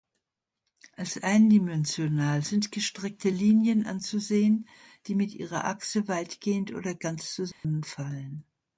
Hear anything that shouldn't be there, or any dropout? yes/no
yes